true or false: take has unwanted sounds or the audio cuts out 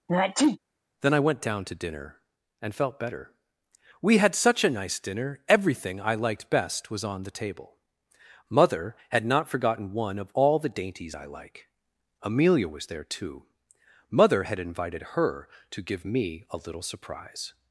true